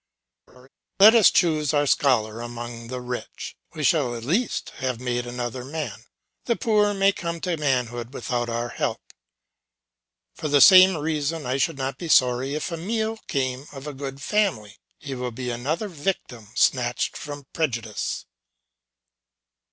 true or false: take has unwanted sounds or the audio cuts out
true